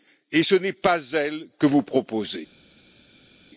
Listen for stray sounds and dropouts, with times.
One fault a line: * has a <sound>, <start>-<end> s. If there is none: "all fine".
all fine